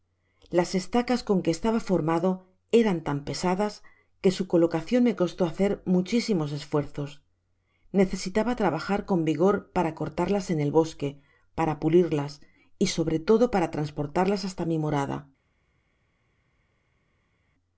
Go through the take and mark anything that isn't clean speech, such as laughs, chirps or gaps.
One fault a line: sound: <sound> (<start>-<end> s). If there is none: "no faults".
no faults